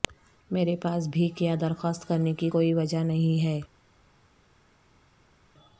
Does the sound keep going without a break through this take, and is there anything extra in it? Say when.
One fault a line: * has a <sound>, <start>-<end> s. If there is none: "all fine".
all fine